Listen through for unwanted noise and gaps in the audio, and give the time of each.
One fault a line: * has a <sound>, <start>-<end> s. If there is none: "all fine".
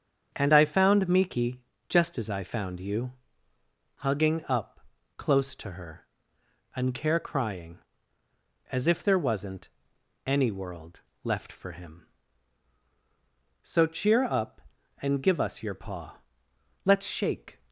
all fine